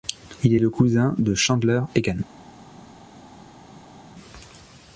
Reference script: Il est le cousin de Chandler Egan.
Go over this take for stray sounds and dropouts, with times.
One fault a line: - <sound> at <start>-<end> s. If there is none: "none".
none